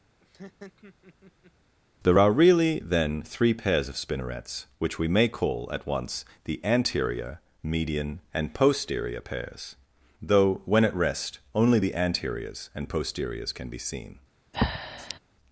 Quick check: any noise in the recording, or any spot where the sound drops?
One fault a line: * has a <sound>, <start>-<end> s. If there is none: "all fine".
* has a laugh, 0.2-1.5 s
* has a breath, 14.5-15.2 s